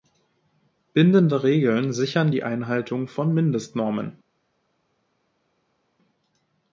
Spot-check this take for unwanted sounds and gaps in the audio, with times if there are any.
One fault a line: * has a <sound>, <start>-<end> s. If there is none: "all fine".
all fine